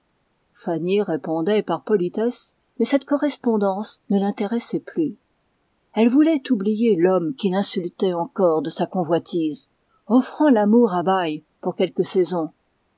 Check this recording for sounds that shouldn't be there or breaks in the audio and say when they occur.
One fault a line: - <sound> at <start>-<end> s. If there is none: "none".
none